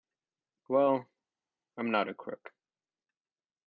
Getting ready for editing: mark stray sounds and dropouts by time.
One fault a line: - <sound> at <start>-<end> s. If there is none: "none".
none